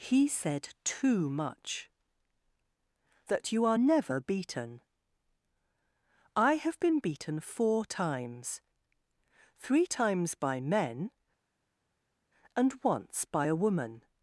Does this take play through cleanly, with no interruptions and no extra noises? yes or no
yes